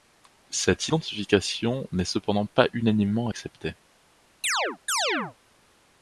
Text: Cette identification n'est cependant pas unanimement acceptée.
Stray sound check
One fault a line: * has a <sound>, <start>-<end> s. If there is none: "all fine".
* has a chirp, 4.4-5.3 s